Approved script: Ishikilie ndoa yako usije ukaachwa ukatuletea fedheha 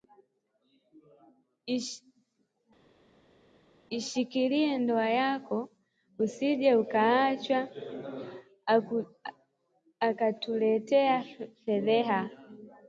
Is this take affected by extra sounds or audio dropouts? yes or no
no